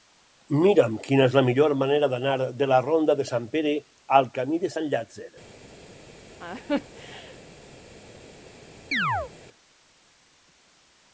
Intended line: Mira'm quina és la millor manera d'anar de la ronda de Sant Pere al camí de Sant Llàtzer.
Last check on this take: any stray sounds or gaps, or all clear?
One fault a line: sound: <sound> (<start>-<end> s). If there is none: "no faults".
sound: laugh (6.4-7.4 s)
sound: chirp (8.9-9.3 s)